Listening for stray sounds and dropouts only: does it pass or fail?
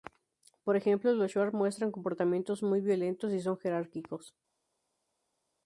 pass